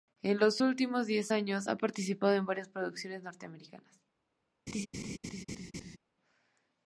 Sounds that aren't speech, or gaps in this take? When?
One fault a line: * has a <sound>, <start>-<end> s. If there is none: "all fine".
* has a laugh, 4.7-6.0 s